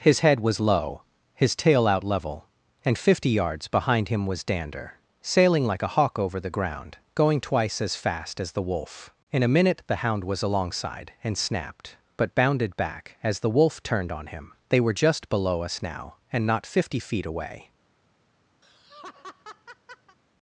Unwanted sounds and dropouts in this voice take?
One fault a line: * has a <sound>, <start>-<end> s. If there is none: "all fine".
* has a laugh, 18.6-20.2 s